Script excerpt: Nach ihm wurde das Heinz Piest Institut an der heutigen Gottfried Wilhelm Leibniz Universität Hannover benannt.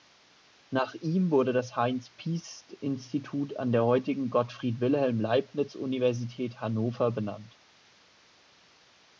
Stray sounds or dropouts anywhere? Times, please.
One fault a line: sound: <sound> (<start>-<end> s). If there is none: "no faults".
no faults